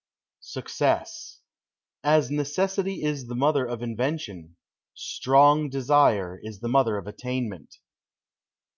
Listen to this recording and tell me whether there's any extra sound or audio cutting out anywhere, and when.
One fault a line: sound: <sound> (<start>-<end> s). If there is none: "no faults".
no faults